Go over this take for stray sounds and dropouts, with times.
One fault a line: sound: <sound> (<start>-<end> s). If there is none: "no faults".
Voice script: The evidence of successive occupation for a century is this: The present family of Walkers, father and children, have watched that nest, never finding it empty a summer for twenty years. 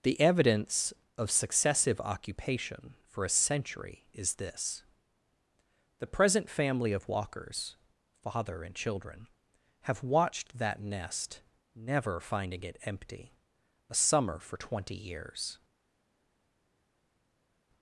no faults